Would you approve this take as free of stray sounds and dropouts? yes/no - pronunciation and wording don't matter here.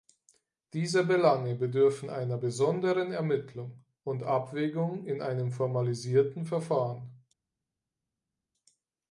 yes